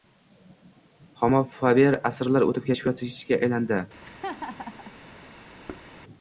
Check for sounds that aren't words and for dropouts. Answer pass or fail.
fail